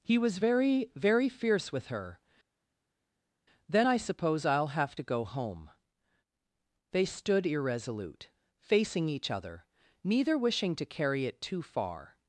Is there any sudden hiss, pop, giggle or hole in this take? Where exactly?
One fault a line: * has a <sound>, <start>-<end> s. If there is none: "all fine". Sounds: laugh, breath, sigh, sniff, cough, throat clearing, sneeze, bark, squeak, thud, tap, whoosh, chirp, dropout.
all fine